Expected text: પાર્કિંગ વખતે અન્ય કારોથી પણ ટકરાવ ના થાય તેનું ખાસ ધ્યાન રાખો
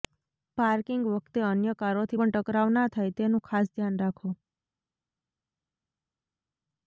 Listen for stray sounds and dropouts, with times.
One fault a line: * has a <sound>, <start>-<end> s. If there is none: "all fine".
all fine